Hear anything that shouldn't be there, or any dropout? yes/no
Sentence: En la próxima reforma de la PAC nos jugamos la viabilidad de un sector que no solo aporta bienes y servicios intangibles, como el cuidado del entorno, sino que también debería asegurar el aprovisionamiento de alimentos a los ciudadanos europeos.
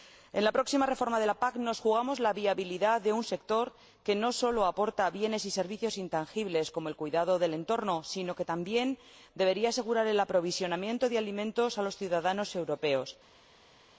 no